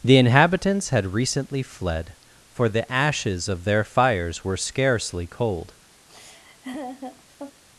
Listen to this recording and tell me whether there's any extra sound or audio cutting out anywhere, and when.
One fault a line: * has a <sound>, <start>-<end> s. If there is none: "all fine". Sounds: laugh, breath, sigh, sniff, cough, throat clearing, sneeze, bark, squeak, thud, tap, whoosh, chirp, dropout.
* has a laugh, 6.1-7.6 s